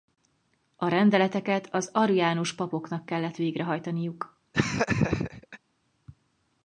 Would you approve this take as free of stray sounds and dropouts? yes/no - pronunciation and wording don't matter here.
no